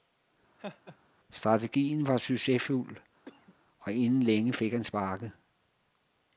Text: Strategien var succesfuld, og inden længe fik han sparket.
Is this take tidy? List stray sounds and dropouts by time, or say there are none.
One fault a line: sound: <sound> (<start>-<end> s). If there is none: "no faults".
sound: laugh (0.6-1.0 s)
sound: cough (3.2-3.6 s)